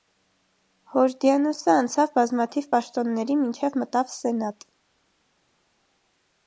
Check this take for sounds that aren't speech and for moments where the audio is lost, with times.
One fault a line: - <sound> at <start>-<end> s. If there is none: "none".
none